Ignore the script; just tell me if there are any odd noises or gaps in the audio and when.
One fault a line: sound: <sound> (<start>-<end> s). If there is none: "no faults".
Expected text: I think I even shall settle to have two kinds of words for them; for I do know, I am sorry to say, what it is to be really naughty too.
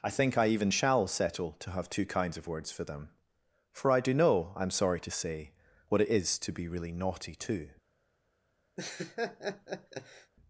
sound: laugh (8.8-10.3 s)